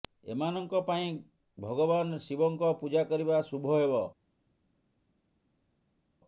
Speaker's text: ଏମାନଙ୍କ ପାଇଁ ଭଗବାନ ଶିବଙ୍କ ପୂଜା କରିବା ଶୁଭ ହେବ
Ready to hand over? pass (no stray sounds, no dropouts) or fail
pass